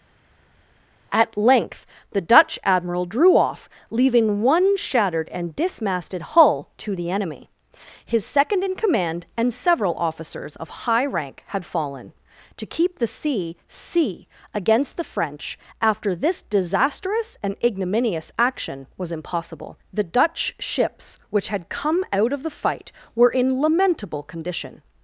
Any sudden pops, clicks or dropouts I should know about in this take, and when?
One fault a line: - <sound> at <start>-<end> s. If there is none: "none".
none